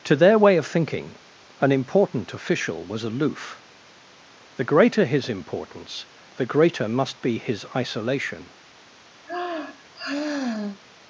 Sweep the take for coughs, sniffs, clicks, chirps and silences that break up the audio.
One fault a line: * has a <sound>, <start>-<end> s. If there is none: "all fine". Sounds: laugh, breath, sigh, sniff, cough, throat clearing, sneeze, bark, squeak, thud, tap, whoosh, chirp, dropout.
* has a sigh, 9.2-10.8 s